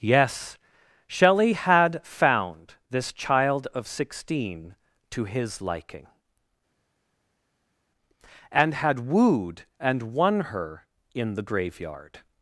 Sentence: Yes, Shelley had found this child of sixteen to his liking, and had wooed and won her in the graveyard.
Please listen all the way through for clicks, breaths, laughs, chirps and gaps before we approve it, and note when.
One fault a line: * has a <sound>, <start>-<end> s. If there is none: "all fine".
all fine